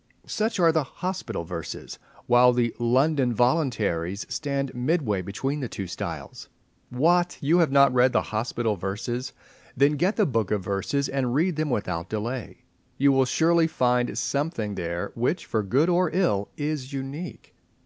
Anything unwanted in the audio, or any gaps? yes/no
no